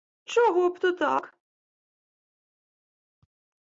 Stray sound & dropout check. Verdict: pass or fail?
pass